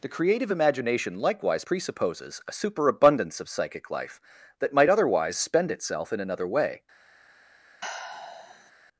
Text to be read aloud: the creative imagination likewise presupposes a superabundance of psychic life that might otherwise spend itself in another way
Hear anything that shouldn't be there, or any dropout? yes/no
yes